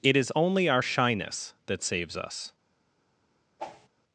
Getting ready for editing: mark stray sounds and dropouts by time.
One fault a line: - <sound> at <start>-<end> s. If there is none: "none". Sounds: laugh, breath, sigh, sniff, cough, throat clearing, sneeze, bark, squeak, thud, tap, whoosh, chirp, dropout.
- whoosh at 3.6-3.9 s